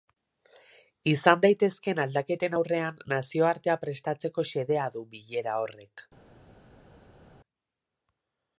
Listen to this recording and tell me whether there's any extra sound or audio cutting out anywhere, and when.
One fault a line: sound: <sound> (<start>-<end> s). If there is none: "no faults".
no faults